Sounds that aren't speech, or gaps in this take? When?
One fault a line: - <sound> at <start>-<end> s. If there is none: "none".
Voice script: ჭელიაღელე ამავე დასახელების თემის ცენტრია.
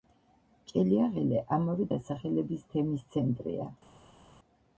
none